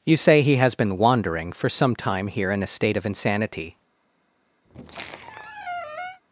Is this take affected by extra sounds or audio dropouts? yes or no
yes